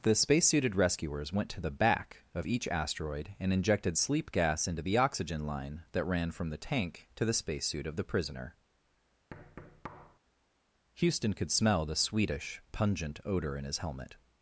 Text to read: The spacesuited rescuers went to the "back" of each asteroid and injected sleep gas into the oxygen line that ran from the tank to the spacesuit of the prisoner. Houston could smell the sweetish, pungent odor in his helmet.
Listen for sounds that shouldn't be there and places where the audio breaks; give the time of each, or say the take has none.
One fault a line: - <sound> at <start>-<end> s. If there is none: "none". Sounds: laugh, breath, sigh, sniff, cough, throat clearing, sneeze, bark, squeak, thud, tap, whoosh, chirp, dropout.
- thud at 9.3-10.2 s